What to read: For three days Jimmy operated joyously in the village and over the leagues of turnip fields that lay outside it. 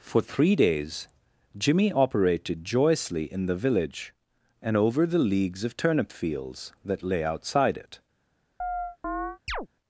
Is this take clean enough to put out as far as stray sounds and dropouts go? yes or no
no